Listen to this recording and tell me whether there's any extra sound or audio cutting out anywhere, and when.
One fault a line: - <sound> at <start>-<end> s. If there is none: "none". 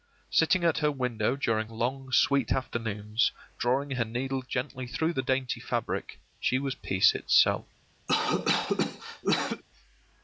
- cough at 8.1-9.6 s